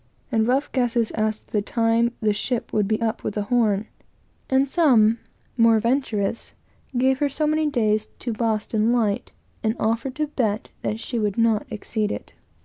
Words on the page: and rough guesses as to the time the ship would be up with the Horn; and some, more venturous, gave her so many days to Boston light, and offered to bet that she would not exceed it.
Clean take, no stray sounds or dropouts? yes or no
yes